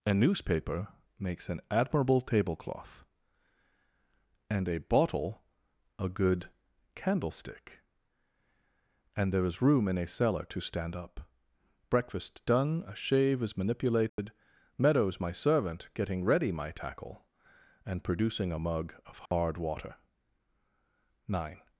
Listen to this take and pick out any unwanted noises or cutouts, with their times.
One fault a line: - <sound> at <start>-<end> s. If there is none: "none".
- dropout at 14.1-14.2 s
- dropout at 19.3-19.3 s